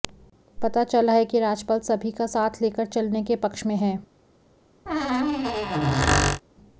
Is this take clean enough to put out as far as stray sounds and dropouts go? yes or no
no